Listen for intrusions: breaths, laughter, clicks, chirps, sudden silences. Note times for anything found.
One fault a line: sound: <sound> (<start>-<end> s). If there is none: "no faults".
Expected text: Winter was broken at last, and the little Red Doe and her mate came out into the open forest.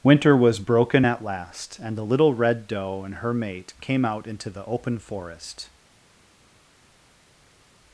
no faults